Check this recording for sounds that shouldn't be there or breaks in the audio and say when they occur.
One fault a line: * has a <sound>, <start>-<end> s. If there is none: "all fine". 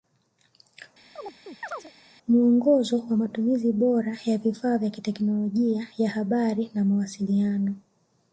* has a chirp, 1.2-1.9 s